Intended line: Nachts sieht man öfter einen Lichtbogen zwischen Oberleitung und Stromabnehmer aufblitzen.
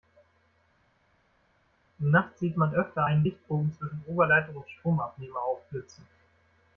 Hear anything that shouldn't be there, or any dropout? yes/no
no